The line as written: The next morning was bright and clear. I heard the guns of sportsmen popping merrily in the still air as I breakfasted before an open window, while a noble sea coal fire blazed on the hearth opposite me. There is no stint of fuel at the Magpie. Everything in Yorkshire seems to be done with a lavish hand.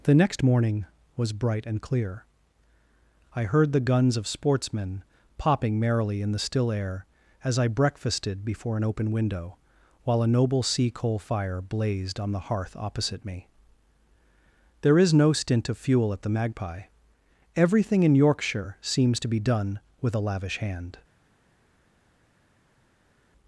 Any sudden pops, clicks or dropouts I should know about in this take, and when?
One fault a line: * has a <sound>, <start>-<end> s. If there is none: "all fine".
all fine